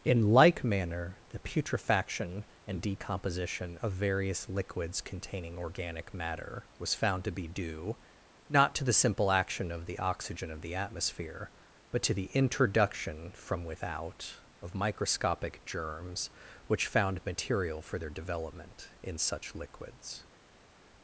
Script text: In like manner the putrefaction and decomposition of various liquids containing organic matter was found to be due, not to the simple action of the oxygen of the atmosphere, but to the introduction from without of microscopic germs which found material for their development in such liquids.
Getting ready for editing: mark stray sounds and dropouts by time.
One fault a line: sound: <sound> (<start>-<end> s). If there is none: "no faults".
no faults